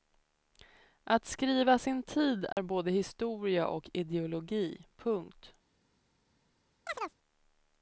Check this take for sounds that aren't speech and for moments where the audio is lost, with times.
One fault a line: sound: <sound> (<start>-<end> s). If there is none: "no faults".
sound: dropout (2.5-2.6 s)
sound: chirp (6.9-7.2 s)